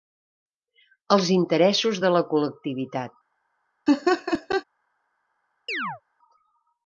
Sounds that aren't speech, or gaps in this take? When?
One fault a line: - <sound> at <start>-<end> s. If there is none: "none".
- laugh at 3.9-4.6 s
- chirp at 5.7-6.0 s